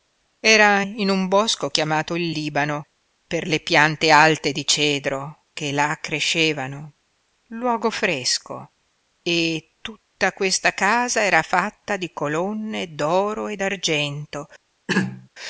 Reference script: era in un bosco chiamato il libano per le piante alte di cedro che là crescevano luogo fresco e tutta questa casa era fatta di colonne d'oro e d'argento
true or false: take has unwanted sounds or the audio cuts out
true